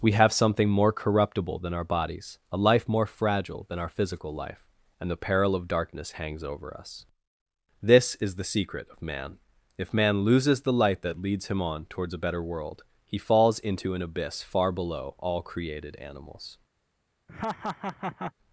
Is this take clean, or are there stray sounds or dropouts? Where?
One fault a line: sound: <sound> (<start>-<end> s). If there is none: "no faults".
sound: laugh (17.3-18.3 s)